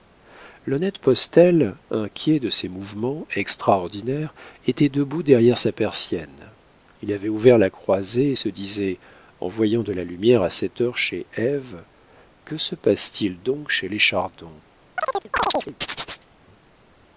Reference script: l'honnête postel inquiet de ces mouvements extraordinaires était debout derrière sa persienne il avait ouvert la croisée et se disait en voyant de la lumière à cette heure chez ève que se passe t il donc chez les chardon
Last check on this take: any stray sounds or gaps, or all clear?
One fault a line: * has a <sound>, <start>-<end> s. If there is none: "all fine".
* has a chirp, 15.0-16.3 s